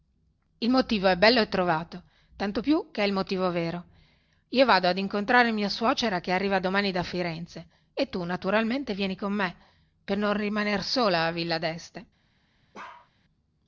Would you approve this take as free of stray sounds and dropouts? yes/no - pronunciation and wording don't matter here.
no